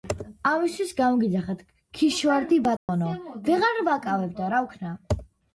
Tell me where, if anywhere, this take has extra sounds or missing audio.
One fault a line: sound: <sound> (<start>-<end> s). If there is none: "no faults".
sound: dropout (2.8-2.9 s)